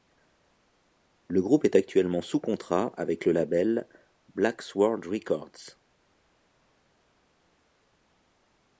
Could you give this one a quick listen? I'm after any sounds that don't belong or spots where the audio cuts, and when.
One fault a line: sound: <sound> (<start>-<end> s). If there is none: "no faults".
no faults